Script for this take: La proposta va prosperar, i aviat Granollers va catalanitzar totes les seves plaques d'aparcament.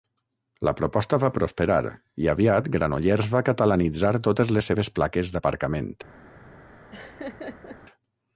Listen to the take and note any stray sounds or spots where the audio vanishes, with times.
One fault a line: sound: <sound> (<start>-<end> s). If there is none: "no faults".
sound: laugh (6.9-7.8 s)